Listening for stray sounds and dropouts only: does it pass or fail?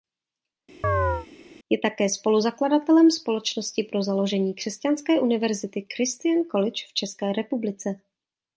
fail